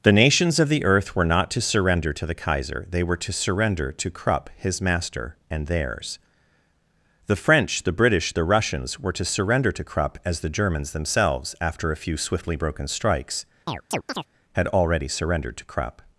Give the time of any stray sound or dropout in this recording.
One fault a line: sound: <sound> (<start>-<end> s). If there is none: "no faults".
sound: chirp (13.7-14.3 s)